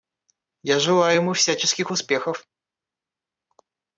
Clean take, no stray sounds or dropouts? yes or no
yes